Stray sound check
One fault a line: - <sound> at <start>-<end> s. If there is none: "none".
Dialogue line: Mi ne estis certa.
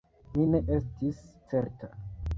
none